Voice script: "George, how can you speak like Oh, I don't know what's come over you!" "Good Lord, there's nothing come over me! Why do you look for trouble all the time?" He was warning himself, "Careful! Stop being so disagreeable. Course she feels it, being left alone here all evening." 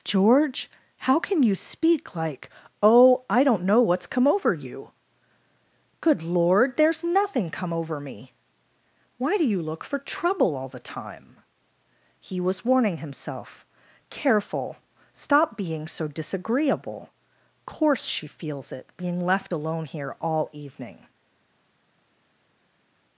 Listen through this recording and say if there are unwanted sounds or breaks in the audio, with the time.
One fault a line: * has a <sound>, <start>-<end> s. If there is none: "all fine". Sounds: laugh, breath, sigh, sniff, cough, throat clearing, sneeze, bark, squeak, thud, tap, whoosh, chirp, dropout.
all fine